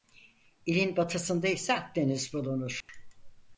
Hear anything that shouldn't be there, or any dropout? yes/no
yes